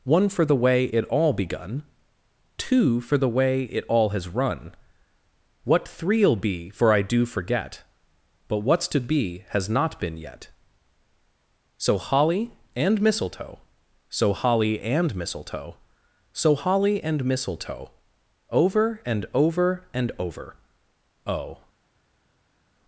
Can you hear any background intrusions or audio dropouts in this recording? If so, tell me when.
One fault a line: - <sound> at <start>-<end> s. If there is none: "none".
none